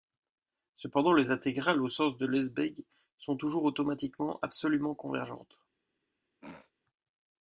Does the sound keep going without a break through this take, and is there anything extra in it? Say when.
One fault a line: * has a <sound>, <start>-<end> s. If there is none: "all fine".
* has a throat clearing, 6.4-6.7 s